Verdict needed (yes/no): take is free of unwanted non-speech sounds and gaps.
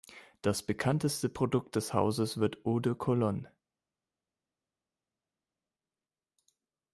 yes